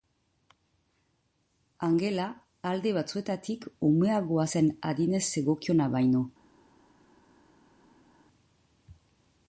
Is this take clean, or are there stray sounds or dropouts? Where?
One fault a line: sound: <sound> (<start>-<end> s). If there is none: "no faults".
no faults